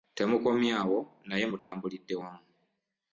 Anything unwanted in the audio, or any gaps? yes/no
yes